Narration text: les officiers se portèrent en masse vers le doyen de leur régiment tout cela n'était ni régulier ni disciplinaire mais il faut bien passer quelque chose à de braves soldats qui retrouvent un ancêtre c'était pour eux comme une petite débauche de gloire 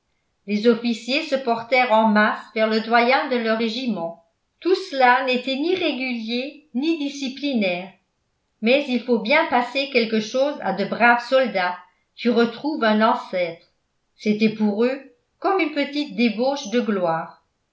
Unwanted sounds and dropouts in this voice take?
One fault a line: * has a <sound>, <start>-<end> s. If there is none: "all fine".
all fine